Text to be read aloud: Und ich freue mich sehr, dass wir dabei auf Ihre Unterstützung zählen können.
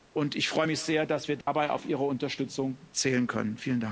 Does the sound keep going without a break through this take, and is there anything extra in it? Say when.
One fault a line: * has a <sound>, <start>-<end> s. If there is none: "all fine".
* has a dropout, 1.4-1.5 s